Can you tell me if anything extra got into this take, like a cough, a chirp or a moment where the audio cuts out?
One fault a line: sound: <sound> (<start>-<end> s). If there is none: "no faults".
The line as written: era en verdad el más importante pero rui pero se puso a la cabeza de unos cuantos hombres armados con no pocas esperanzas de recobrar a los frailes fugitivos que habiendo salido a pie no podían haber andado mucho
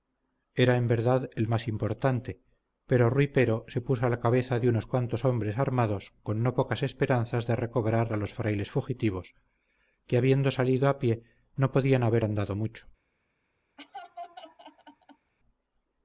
sound: laugh (13.8-15.3 s)